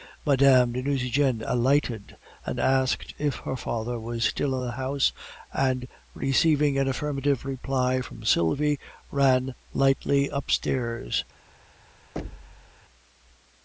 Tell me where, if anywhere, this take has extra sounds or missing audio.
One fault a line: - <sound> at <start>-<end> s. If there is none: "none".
- thud at 12.2-12.8 s